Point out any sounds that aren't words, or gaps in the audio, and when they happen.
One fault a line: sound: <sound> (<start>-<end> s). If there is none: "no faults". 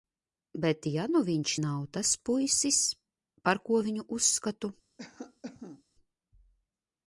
sound: cough (5.0-5.8 s)